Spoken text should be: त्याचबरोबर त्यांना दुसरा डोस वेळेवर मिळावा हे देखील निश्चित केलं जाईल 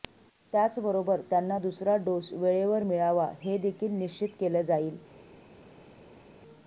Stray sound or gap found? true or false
false